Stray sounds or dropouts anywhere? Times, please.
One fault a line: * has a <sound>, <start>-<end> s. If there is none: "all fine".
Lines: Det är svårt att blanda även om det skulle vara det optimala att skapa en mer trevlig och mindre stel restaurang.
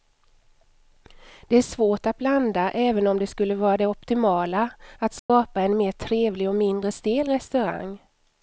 * has a dropout, 5.2-5.3 s